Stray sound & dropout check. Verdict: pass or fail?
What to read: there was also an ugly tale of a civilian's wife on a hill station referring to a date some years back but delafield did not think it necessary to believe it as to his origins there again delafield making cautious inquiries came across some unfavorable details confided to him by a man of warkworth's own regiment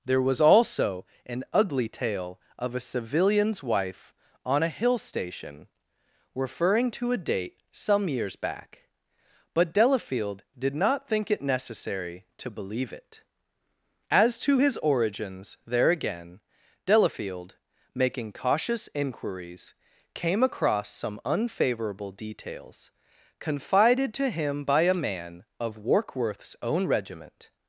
pass